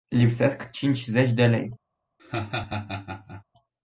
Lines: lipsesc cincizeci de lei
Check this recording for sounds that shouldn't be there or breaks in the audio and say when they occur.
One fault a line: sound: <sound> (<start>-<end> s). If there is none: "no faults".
sound: laugh (2.2-3.4 s)